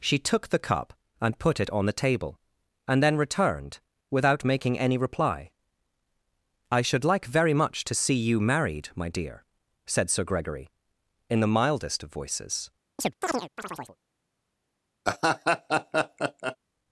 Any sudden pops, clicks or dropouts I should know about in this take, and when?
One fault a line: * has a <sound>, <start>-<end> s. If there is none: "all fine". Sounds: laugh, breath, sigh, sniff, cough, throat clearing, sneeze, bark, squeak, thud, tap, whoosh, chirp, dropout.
* has a chirp, 13.0-14.0 s
* has a laugh, 15.0-16.6 s